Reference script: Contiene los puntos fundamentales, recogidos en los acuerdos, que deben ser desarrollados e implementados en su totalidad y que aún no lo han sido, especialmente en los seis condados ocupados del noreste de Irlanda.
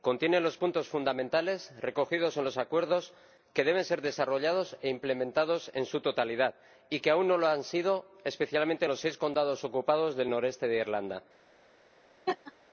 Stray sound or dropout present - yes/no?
yes